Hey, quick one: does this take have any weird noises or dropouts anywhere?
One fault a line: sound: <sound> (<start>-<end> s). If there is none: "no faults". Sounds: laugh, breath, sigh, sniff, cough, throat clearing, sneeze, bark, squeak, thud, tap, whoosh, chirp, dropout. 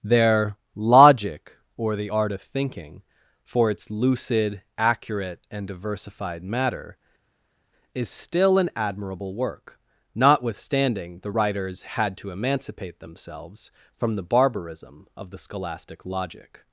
no faults